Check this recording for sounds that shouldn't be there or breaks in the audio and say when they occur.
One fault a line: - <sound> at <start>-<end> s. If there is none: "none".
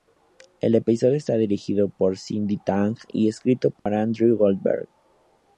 - dropout at 3.8-3.9 s